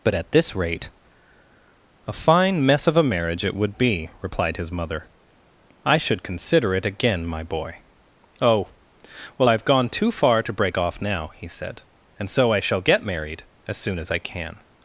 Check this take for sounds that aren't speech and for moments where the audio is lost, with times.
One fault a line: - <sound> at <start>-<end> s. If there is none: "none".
none